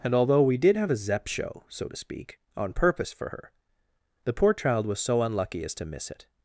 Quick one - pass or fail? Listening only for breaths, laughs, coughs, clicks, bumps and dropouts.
pass